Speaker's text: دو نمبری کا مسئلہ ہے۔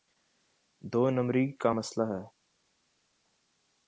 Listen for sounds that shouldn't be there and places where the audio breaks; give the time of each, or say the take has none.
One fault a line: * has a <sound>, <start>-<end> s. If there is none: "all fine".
all fine